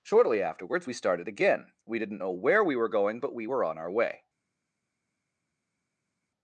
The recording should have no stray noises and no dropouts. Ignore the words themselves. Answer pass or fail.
pass